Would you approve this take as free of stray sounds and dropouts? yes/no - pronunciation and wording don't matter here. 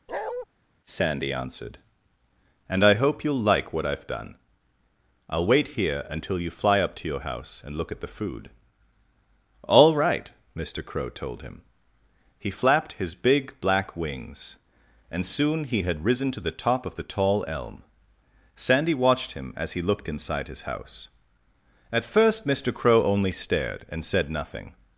no